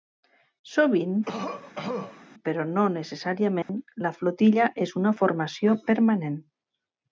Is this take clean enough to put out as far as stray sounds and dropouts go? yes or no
no